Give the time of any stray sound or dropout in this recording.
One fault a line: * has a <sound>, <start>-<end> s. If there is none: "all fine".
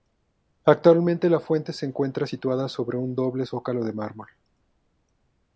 all fine